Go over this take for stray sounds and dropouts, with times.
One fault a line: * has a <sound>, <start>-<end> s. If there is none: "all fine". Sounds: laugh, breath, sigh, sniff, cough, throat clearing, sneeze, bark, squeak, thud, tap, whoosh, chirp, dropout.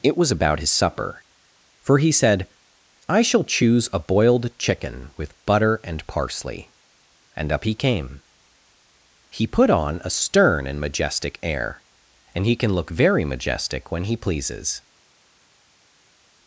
all fine